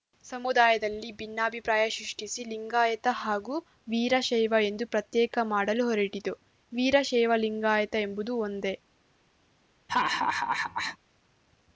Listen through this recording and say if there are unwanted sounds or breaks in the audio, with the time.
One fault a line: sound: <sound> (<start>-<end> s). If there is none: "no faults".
sound: laugh (9.9-11.0 s)